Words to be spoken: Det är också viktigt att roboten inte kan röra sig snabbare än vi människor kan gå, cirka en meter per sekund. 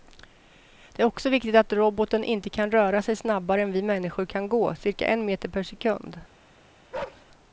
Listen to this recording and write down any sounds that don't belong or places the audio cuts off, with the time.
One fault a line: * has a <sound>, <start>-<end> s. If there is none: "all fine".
* has a bark, 6.9-7.3 s